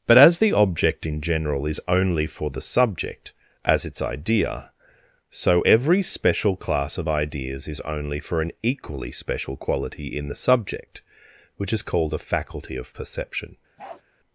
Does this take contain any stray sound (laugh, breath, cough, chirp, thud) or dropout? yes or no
yes